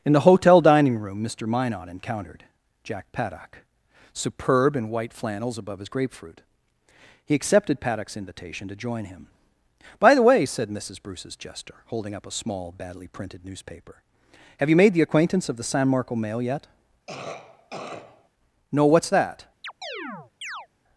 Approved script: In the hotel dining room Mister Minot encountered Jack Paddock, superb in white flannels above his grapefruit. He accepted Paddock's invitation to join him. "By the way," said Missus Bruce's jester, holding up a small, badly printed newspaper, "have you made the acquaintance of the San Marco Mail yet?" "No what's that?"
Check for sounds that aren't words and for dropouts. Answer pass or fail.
fail